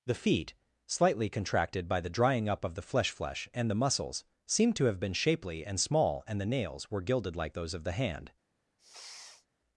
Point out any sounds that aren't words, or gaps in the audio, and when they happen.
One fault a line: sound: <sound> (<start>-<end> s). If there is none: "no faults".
sound: sniff (8.8-9.5 s)